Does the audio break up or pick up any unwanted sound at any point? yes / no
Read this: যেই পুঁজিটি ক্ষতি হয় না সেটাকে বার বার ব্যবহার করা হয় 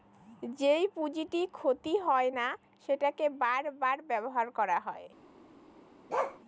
yes